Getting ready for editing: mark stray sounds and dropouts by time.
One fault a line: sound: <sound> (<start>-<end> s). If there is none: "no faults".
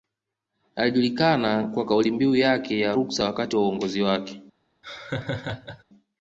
sound: laugh (4.8-5.8 s)